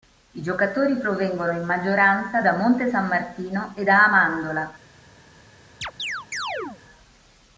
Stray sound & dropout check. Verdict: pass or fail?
fail